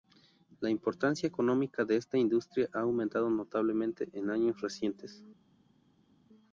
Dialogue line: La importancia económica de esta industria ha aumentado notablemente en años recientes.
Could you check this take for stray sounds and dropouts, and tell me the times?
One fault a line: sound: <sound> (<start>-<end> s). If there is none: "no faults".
no faults